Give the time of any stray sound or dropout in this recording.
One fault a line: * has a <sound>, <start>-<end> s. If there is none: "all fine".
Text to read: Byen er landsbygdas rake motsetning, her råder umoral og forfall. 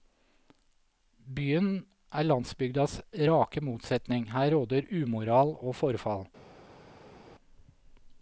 all fine